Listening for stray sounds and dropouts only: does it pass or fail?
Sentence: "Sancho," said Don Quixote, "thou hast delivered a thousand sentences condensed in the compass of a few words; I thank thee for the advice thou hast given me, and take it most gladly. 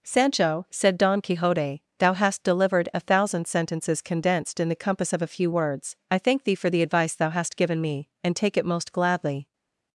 pass